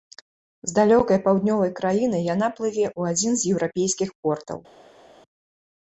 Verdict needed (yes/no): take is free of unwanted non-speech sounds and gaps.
yes